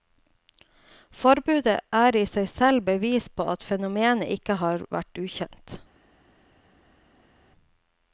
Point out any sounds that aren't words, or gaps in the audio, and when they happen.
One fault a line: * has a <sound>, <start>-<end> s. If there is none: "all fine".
all fine